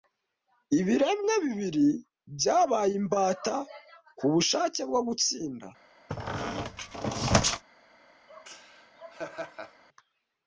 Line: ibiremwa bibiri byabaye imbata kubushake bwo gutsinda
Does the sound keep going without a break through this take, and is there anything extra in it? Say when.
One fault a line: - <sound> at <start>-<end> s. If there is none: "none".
- squeak at 6.1-7.6 s
- laugh at 8.3-9.8 s